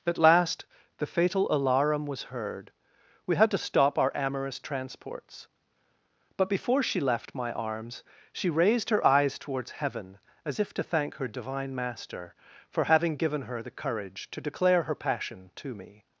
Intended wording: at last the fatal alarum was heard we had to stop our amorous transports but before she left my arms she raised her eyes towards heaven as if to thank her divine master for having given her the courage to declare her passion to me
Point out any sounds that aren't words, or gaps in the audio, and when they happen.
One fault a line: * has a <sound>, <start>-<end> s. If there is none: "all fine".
all fine